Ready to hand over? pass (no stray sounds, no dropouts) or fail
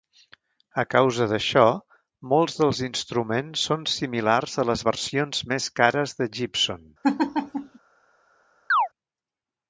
fail